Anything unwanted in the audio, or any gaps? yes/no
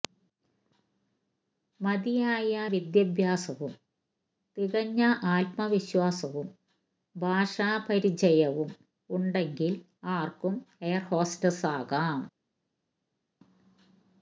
no